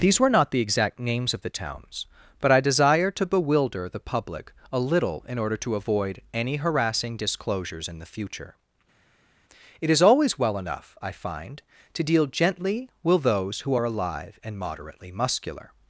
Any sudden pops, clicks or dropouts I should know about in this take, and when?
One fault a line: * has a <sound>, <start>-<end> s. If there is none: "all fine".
all fine